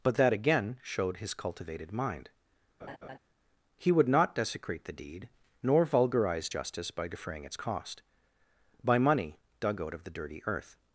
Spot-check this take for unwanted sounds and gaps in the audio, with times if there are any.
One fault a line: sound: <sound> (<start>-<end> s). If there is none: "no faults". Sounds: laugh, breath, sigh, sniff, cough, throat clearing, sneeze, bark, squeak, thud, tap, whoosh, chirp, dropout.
sound: laugh (2.8-3.2 s)